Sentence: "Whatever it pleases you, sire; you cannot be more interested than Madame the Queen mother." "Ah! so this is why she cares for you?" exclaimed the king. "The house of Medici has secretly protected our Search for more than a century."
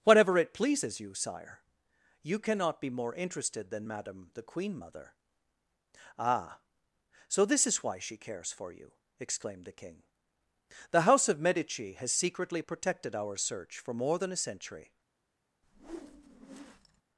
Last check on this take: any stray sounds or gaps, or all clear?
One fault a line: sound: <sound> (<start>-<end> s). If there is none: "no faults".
sound: whoosh (15.6-17.0 s)